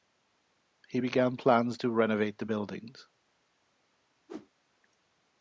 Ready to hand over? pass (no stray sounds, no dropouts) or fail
fail